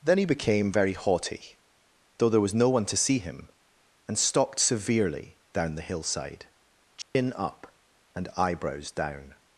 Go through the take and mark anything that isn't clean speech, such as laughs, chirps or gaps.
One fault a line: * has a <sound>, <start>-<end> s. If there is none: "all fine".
* has a dropout, 7.0-7.1 s